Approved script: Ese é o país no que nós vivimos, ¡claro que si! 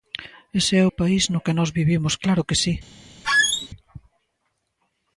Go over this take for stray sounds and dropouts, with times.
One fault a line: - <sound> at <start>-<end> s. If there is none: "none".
- squeak at 3.2-3.7 s